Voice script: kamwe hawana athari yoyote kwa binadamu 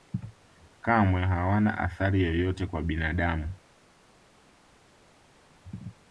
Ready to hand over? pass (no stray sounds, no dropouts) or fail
pass